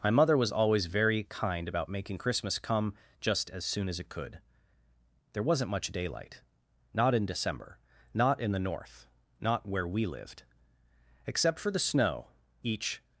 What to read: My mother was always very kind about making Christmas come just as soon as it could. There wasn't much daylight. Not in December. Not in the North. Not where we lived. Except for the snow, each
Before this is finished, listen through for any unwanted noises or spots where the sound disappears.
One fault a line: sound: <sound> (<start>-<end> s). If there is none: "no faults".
no faults